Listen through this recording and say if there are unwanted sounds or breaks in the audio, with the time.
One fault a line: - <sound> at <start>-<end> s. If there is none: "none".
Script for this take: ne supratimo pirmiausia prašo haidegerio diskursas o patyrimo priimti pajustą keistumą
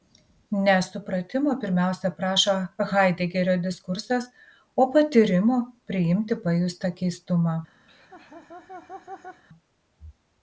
- laugh at 7.9-9.4 s